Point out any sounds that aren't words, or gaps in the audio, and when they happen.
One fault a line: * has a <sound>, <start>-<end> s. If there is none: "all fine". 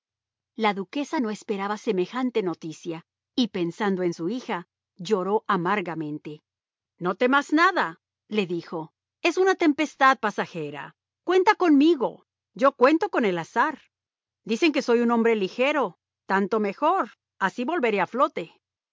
all fine